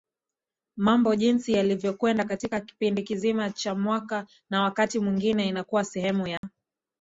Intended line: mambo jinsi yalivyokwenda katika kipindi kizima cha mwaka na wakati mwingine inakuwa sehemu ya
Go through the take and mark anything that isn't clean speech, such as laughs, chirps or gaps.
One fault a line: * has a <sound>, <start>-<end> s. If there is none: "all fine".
* has a dropout, 6.4-6.4 s